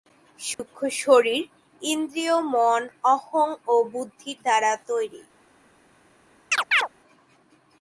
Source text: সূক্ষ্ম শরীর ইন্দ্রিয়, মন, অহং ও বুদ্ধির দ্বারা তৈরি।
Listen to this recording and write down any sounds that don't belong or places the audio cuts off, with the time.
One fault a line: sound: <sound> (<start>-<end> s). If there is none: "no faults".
sound: dropout (0.5-0.6 s)
sound: chirp (6.5-6.9 s)